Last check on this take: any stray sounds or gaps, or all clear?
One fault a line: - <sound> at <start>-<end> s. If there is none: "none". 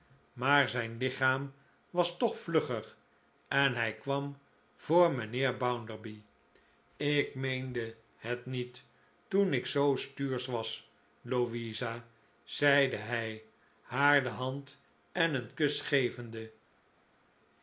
none